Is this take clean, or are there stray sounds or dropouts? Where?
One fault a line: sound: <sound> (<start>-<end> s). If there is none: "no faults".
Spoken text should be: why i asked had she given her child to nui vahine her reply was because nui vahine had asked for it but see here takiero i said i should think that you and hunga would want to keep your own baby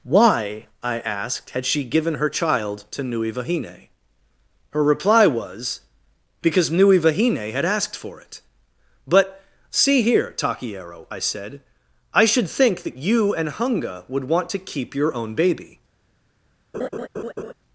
sound: laugh (16.7-17.5 s)